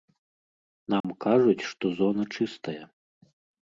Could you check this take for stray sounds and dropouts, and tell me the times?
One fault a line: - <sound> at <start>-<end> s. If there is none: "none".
- dropout at 1.0-1.0 s